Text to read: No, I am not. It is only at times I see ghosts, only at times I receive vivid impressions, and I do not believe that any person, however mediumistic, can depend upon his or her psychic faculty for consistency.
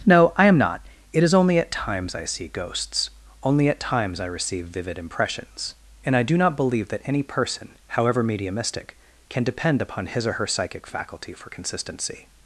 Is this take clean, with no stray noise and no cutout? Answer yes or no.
yes